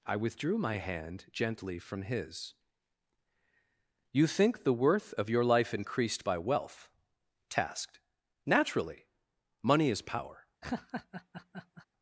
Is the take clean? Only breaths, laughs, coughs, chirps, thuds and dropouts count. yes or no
no